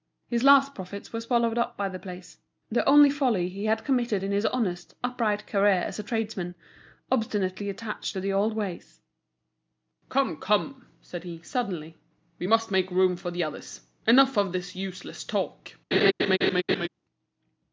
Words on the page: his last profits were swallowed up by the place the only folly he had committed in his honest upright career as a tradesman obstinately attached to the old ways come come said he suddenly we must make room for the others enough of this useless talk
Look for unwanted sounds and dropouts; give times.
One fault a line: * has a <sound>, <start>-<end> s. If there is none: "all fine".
* has a laugh, 15.9-16.9 s